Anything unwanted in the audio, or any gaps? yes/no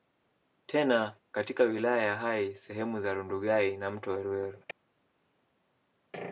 no